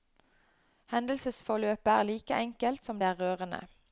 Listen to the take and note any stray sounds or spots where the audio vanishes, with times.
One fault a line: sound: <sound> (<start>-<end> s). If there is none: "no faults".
no faults